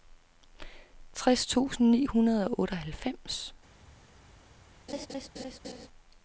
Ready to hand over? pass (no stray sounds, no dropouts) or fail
fail